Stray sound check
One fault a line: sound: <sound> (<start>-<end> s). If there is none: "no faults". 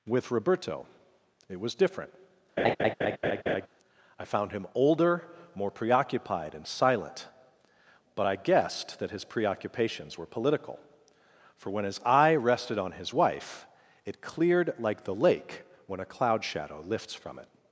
sound: laugh (2.6-3.7 s)